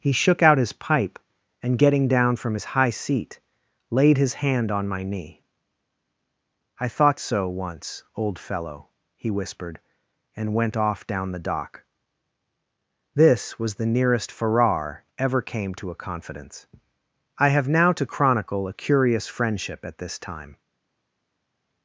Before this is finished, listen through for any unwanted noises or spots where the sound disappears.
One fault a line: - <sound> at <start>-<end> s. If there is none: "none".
none